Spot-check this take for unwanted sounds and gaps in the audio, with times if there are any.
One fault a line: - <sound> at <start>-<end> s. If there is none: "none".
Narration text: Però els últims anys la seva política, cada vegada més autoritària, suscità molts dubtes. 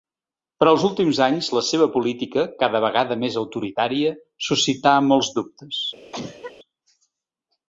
- cough at 6.1-6.5 s